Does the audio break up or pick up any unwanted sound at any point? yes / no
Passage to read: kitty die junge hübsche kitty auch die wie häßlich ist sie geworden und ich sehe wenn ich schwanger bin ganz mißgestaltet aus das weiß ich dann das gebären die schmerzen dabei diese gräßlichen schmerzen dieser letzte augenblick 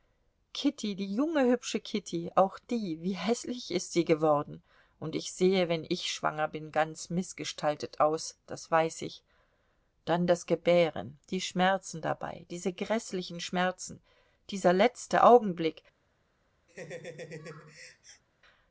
yes